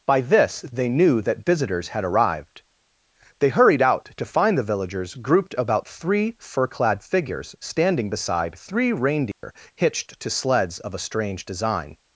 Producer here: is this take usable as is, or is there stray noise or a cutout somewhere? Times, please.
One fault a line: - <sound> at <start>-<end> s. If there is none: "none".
- dropout at 9.3-9.4 s